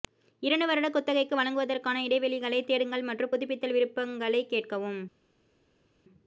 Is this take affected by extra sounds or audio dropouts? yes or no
no